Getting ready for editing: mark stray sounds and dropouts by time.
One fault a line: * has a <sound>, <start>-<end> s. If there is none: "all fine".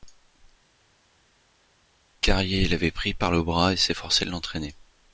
all fine